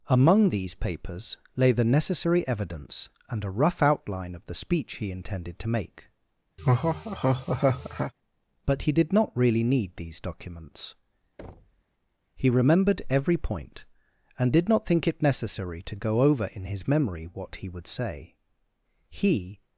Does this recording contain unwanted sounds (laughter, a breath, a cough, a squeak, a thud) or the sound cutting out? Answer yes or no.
yes